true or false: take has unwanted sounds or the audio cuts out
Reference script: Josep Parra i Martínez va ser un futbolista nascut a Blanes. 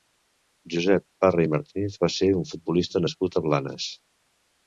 false